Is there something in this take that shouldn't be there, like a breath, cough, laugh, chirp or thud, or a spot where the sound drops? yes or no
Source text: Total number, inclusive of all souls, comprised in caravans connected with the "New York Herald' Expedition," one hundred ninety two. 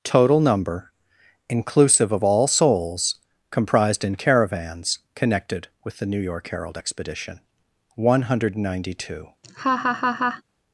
yes